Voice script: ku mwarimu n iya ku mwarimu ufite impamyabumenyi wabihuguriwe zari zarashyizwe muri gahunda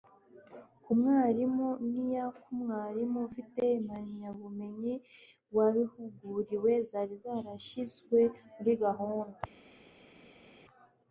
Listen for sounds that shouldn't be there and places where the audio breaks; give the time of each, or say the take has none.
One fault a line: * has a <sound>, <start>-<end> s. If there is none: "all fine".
all fine